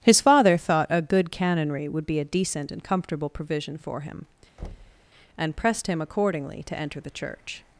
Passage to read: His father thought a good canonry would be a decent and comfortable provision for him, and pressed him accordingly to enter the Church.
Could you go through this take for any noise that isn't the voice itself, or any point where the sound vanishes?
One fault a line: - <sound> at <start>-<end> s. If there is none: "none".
- thud at 4.6-5.1 s